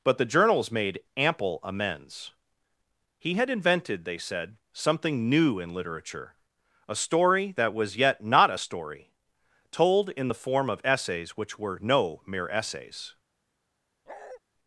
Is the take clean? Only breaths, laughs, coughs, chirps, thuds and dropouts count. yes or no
no